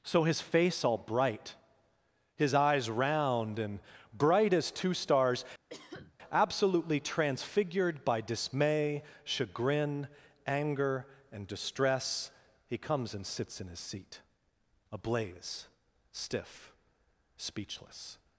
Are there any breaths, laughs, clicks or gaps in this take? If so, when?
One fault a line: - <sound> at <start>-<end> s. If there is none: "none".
- cough at 5.7-6.2 s